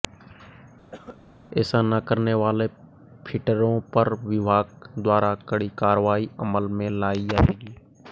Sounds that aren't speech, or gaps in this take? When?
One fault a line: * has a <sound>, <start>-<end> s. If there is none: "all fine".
* has a cough, 0.9-1.2 s